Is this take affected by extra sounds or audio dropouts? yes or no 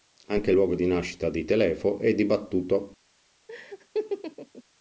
yes